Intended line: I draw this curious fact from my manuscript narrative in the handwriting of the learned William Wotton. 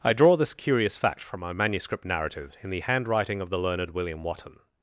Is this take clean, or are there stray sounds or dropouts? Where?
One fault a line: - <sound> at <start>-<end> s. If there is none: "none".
none